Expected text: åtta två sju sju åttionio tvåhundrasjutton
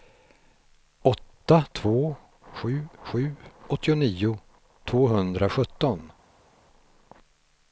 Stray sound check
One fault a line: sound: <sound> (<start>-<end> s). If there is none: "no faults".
no faults